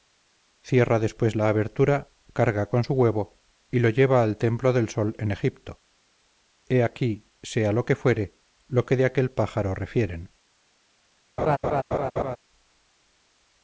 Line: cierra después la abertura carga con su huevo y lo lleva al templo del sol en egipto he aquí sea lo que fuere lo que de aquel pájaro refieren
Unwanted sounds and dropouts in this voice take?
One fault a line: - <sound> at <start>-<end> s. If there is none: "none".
- laugh at 11.4-12.4 s